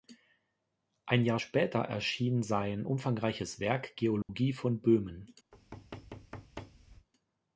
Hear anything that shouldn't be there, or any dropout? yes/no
yes